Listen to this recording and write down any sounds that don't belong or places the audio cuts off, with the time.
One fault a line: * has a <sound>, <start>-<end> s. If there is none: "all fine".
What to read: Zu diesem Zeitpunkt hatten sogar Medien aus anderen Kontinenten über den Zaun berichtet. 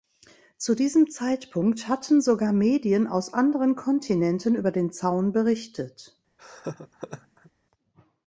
* has a laugh, 6.4-7.5 s